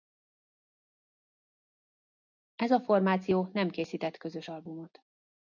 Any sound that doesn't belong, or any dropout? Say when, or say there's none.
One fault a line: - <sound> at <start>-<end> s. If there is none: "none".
none